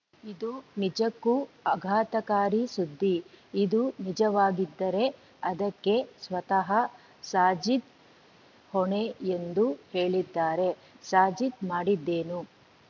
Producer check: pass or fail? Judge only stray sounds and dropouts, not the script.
pass